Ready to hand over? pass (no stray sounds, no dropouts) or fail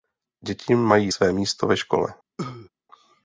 fail